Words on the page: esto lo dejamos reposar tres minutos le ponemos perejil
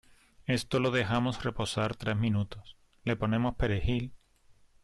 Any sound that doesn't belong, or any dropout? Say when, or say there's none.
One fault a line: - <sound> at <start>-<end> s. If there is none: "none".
none